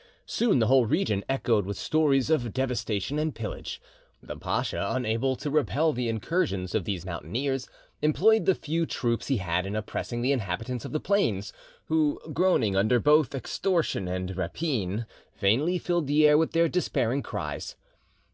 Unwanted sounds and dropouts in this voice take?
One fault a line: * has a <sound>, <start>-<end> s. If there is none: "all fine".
all fine